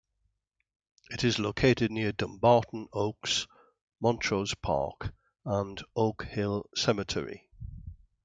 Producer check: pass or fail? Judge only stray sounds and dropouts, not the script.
pass